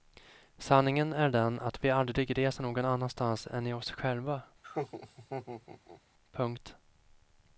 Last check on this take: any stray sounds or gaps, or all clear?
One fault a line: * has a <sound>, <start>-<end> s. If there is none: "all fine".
* has a laugh, 4.6-6.0 s